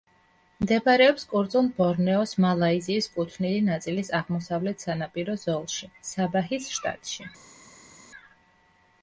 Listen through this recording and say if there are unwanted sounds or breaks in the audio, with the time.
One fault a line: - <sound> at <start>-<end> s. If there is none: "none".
none